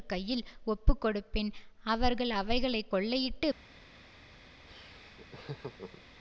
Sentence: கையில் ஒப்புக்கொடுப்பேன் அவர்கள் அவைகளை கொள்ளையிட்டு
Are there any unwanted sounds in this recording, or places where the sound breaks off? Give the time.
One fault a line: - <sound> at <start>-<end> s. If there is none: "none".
- laugh at 4.7-6.0 s